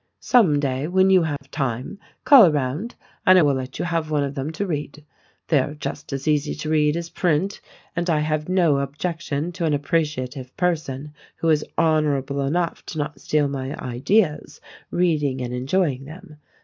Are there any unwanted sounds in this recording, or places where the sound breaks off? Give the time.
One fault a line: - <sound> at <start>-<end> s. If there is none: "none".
- dropout at 1.4-1.4 s